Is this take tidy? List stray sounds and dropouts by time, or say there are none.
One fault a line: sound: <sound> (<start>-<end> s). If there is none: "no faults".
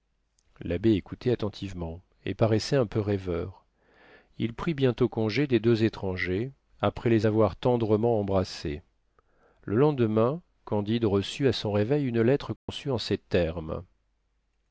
sound: dropout (12.6-12.7 s)